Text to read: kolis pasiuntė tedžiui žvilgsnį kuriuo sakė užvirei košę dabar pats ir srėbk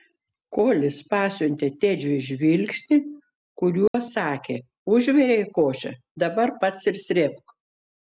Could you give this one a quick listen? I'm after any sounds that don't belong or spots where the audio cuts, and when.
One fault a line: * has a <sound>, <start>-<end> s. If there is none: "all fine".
* has a dropout, 3.9-3.9 s